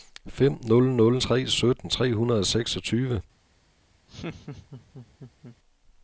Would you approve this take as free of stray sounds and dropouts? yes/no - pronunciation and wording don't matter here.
no